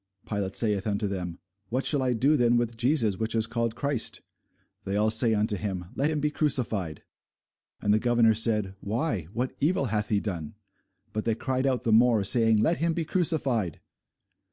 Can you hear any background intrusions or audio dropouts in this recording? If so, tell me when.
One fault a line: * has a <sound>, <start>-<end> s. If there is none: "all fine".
all fine